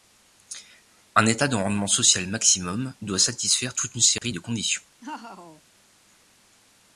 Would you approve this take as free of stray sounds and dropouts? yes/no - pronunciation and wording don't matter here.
no